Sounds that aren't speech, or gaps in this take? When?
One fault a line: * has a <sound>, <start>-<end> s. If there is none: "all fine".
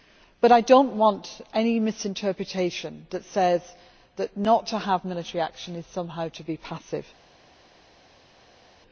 all fine